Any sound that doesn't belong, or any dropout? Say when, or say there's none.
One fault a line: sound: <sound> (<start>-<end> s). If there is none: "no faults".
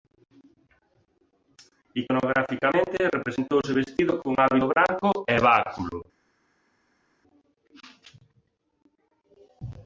no faults